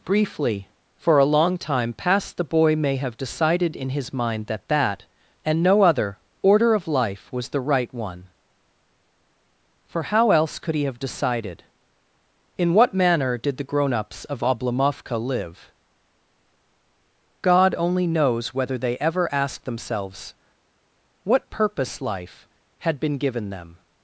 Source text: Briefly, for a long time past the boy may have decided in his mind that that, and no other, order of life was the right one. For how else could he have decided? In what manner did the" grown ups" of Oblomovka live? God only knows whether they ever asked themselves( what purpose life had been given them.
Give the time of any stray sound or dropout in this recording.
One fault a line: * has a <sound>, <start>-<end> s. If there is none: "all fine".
all fine